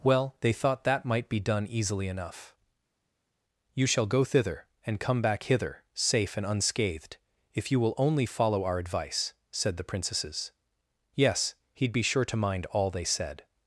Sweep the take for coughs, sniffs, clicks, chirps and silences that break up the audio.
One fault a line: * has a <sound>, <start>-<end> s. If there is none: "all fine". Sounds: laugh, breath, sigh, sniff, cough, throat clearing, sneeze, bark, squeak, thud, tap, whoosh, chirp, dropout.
all fine